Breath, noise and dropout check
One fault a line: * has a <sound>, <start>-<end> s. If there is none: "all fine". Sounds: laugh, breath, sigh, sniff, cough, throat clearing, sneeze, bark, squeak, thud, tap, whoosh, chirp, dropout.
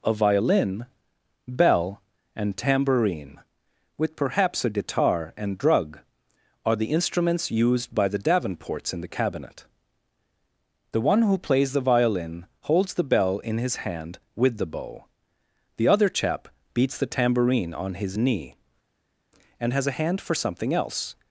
all fine